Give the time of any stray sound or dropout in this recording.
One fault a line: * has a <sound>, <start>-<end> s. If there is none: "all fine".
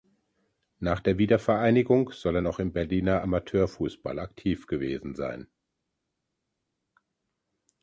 all fine